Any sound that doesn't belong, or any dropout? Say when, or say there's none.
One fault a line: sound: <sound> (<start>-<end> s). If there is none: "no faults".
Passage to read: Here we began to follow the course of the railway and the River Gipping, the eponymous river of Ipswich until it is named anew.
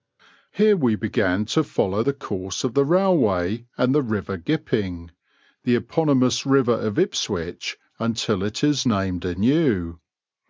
no faults